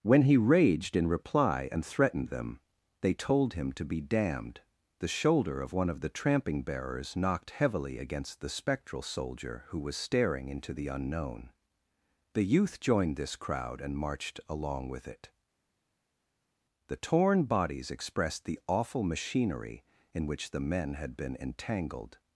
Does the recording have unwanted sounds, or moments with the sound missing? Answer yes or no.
no